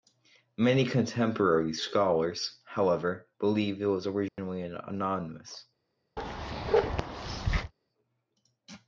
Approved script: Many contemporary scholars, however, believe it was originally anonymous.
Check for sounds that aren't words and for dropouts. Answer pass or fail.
fail